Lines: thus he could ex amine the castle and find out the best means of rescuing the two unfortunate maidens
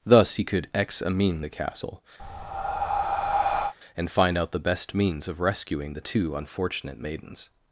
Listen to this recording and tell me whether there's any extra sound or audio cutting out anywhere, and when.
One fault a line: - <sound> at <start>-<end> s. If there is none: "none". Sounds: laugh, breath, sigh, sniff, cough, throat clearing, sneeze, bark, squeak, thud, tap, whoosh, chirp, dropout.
- breath at 2.2-3.7 s